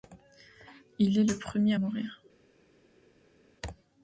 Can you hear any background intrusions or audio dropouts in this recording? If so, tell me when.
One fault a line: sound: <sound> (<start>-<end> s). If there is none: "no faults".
no faults